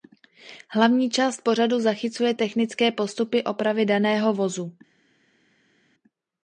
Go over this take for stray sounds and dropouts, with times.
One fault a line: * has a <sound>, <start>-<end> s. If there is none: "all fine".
all fine